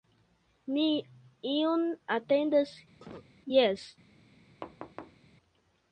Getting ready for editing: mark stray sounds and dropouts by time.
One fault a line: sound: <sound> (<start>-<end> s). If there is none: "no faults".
sound: cough (3.0-3.3 s)
sound: thud (4.6-5.2 s)